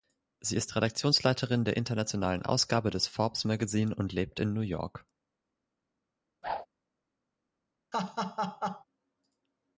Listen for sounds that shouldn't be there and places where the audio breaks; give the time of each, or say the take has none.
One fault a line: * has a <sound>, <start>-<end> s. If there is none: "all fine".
* has a whoosh, 6.4-6.7 s
* has a laugh, 7.9-8.8 s